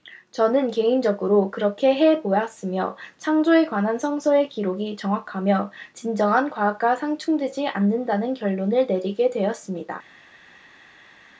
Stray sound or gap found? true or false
false